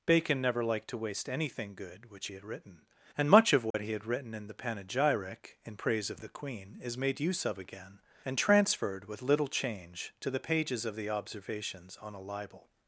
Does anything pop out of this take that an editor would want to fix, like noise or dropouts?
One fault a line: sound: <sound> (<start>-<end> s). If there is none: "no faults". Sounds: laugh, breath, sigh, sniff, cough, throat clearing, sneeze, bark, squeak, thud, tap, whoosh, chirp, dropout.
sound: dropout (3.7-3.7 s)